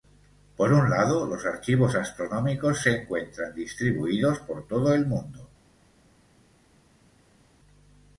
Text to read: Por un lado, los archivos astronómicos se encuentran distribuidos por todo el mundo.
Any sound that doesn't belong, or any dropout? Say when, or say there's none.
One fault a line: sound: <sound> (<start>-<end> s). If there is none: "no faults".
no faults